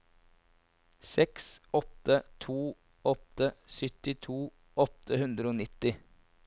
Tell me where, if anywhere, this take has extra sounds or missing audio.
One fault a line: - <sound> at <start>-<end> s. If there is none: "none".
none